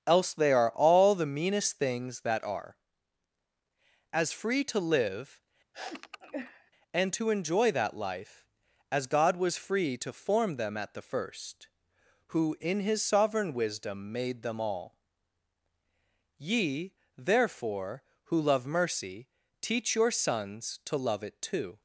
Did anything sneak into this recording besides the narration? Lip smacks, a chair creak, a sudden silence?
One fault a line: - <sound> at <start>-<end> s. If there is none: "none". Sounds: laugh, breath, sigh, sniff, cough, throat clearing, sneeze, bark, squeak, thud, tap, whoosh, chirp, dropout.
- sniff at 5.7-6.7 s